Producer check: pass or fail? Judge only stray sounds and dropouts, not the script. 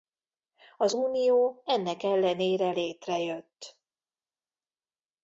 pass